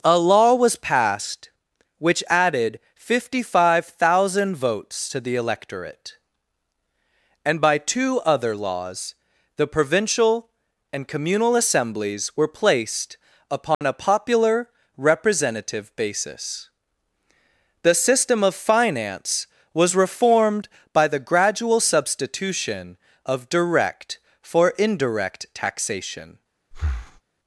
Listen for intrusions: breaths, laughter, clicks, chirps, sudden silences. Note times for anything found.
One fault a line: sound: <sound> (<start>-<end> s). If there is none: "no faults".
sound: dropout (13.7-13.8 s)
sound: breath (26.7-27.2 s)